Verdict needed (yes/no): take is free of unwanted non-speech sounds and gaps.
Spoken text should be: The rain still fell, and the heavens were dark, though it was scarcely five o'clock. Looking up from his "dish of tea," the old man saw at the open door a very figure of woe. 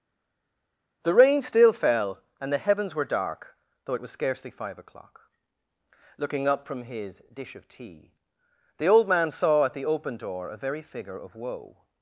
yes